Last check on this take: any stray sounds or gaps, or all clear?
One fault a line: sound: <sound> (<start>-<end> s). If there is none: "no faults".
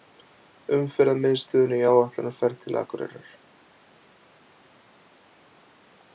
no faults